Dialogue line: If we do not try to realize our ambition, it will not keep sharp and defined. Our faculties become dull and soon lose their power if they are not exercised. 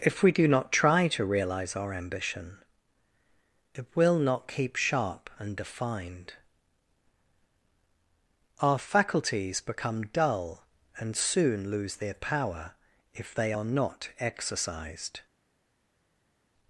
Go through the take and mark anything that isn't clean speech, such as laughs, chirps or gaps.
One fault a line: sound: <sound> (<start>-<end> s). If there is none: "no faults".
no faults